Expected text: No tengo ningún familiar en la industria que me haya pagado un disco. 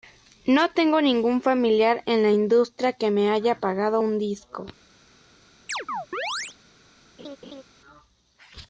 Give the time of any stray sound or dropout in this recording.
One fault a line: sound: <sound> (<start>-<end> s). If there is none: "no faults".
sound: chirp (5.7-6.6 s)
sound: laugh (7.2-7.6 s)